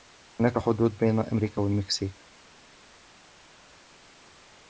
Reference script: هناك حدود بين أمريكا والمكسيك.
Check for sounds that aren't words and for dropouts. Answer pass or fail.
pass